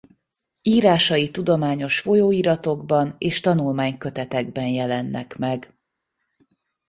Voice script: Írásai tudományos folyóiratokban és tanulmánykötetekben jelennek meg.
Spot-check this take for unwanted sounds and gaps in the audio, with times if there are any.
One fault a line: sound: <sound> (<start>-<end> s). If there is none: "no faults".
no faults